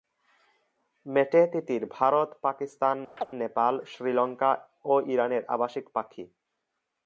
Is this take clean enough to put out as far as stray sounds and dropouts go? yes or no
no